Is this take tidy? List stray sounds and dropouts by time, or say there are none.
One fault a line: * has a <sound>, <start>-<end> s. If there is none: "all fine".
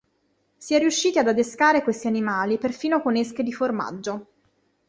all fine